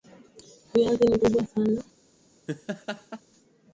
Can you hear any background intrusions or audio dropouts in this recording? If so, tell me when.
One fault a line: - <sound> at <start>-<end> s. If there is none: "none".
- laugh at 2.5-3.2 s